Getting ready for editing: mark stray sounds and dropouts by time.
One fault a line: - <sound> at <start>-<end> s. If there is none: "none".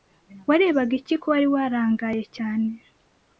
none